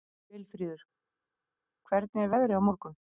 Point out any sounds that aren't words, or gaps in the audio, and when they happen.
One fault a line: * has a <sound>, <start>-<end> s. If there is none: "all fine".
all fine